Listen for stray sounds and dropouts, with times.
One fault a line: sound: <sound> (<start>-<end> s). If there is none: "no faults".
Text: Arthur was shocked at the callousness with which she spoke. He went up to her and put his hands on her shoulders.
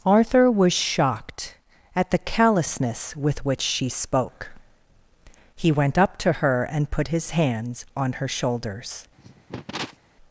sound: cough (9.2-10.0 s)